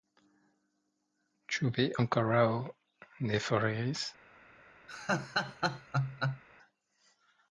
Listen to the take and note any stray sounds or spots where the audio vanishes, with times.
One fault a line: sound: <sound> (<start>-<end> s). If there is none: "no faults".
sound: laugh (4.9-6.4 s)